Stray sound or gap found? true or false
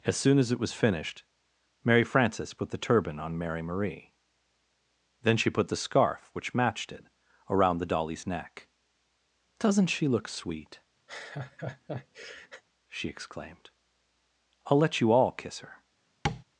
true